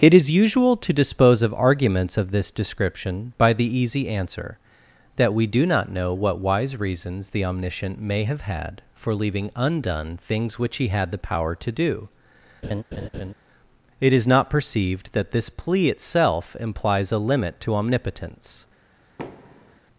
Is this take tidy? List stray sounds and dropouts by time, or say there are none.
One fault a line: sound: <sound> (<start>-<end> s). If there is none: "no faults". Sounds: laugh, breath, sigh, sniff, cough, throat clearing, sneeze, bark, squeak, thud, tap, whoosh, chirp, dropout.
sound: laugh (12.6-13.3 s)
sound: thud (19.2-19.8 s)